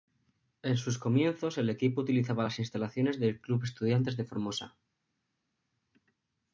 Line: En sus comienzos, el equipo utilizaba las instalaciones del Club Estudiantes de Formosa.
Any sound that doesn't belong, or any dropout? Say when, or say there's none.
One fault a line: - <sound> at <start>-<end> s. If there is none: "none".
none